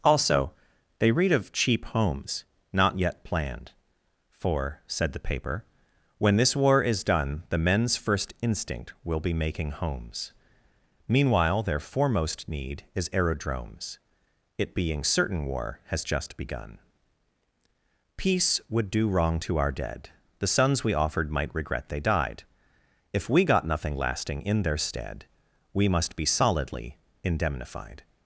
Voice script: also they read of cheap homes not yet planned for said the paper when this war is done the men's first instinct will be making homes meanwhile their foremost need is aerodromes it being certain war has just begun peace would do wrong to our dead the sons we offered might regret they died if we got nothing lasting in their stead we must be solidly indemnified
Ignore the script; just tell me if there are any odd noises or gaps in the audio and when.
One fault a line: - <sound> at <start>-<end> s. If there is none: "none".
none